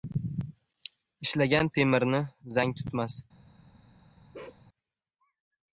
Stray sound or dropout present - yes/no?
yes